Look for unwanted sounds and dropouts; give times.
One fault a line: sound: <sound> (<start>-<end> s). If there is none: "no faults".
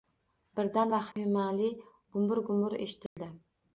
sound: dropout (1.1-1.2 s)
sound: dropout (3.1-3.2 s)